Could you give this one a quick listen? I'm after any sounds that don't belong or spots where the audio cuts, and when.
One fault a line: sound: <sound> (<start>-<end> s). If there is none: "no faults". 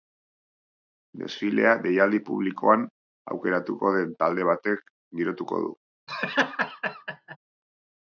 sound: laugh (6.1-7.4 s)